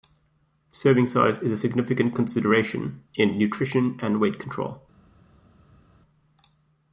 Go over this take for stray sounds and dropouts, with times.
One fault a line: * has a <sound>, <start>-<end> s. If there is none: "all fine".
all fine